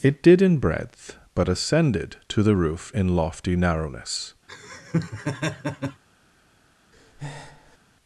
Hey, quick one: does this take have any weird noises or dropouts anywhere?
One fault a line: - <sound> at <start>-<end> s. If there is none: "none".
- laugh at 4.5-6.0 s
- breath at 6.9-7.8 s